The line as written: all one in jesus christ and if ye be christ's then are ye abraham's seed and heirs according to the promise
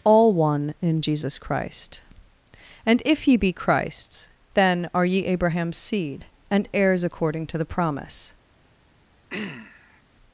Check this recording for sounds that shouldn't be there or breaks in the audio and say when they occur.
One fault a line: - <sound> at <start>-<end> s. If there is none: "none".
- throat clearing at 9.3-10.0 s